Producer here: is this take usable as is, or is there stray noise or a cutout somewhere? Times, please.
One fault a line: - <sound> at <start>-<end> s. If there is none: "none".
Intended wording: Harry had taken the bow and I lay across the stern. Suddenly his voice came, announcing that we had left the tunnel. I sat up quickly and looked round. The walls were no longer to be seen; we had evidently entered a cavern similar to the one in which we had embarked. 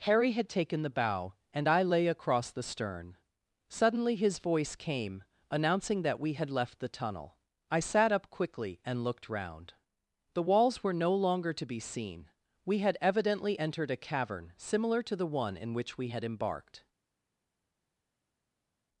none